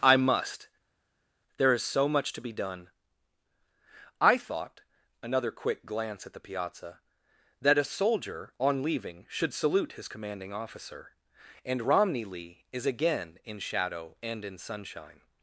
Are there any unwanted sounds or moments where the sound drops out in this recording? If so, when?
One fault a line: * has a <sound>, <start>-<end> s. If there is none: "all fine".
all fine